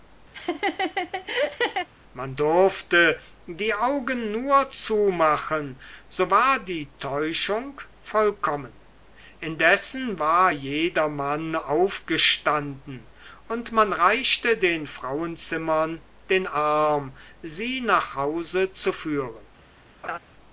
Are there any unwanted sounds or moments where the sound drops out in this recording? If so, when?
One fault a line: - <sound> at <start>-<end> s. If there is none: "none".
- laugh at 0.3-1.9 s
- laugh at 20.0-20.2 s